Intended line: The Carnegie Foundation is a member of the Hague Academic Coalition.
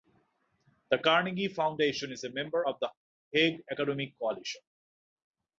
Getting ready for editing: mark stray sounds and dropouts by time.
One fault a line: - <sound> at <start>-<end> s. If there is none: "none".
none